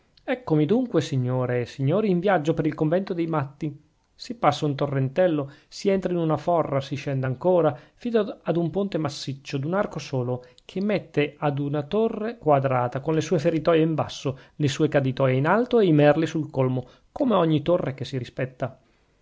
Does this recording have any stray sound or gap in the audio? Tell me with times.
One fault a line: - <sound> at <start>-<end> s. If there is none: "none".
none